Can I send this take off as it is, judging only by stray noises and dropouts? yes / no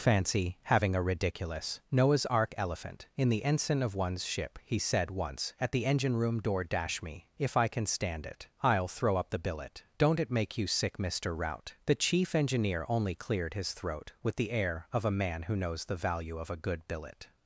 yes